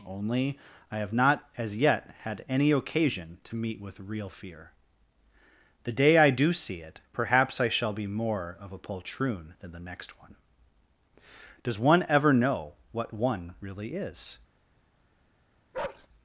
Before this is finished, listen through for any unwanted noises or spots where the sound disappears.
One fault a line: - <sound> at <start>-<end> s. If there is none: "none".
- bark at 15.7-16.1 s